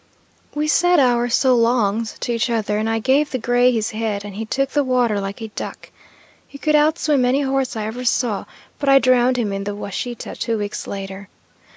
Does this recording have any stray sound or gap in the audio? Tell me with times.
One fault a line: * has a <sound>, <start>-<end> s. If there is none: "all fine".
all fine